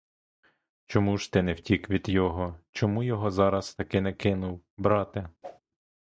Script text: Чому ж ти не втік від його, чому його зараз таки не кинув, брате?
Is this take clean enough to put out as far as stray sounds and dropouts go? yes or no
no